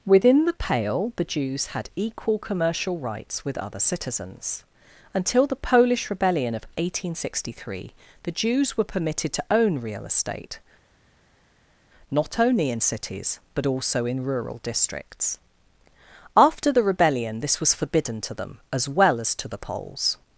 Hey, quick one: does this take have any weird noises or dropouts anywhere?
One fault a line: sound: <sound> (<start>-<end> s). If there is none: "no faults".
no faults